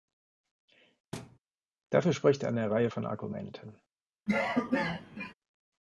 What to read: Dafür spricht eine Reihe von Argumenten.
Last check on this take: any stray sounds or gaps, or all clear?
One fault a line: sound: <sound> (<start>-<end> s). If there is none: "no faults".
sound: thud (1.1-1.4 s)
sound: cough (4.3-5.3 s)